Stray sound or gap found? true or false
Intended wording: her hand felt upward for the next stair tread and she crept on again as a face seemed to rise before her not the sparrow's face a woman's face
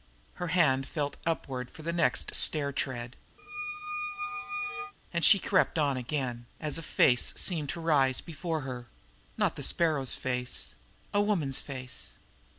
true